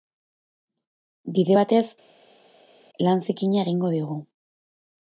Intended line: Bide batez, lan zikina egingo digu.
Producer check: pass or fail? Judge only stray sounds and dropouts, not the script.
pass